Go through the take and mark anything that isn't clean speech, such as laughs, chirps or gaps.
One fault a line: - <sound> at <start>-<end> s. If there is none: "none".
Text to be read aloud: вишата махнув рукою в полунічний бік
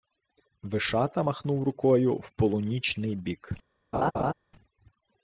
- laugh at 3.9-4.3 s